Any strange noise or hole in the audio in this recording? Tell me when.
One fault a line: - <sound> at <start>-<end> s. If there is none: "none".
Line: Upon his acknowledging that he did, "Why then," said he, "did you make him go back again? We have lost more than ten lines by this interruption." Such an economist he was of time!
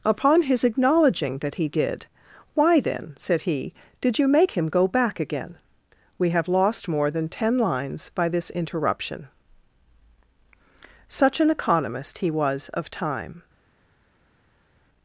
none